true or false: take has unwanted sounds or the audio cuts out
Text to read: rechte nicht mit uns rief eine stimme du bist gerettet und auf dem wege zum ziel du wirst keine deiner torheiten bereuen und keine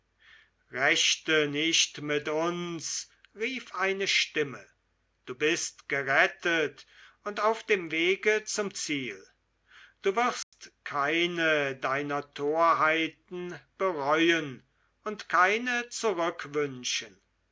true